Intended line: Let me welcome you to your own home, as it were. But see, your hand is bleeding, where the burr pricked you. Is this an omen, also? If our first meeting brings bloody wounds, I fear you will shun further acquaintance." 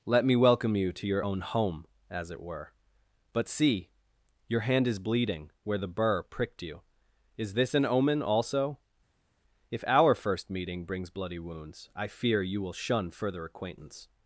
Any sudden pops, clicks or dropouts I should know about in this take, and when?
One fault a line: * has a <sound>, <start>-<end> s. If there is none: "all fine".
all fine